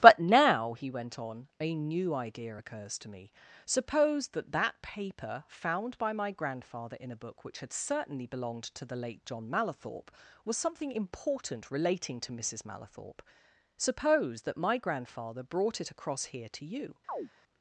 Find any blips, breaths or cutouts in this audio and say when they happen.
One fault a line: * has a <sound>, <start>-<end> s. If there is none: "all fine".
* has a chirp, 17.1-17.3 s